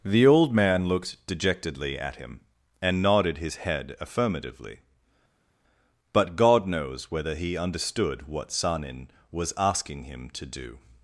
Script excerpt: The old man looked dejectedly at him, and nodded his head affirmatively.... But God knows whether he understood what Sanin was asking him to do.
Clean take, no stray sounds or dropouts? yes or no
yes